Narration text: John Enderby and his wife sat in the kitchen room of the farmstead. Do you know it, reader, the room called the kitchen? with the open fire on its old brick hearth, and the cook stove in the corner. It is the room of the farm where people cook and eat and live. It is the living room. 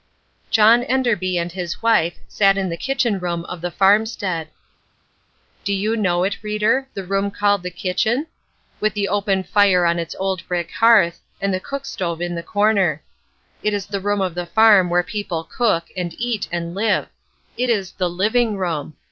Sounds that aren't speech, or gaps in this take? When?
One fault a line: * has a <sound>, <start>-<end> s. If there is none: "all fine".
all fine